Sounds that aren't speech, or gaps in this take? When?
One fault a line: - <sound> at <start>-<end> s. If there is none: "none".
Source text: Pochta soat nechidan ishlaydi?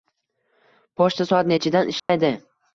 - dropout at 2.0-2.1 s